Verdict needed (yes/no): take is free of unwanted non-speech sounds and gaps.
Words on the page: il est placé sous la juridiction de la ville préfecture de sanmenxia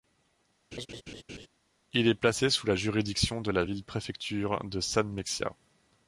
no